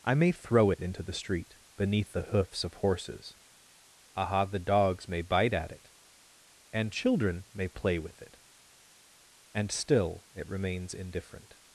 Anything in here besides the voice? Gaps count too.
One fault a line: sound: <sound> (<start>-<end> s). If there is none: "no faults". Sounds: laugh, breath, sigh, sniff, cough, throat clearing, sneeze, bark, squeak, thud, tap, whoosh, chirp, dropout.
no faults